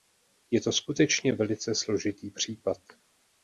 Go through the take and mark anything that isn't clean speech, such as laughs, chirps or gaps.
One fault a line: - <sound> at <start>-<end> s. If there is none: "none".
none